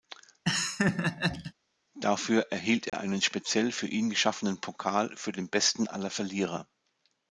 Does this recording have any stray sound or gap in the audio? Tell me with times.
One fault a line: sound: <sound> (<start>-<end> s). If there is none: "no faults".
sound: laugh (0.4-1.5 s)
sound: dropout (2.9-2.9 s)